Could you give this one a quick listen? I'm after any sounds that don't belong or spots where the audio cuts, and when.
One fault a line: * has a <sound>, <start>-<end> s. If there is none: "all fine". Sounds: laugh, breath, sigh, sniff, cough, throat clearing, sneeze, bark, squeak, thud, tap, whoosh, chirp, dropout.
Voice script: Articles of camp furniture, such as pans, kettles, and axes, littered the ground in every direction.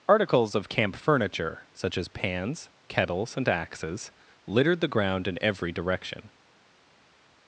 all fine